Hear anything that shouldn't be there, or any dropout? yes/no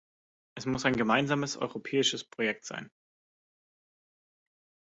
no